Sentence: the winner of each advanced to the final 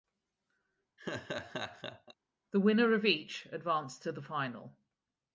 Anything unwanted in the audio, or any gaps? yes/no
yes